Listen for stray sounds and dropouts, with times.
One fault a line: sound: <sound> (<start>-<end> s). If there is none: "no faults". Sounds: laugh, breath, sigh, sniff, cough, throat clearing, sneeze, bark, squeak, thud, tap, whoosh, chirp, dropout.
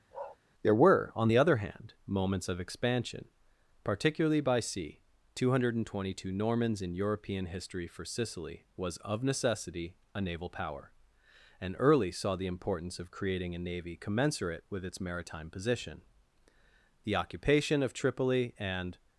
sound: bark (0.1-0.4 s)